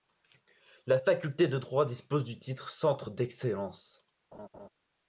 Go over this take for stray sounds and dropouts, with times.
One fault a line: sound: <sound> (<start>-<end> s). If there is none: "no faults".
sound: laugh (4.3-4.7 s)